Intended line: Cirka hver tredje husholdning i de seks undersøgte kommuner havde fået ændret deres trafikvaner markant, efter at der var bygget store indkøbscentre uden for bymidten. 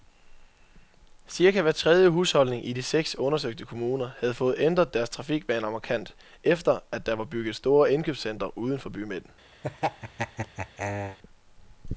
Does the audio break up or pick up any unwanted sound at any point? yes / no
yes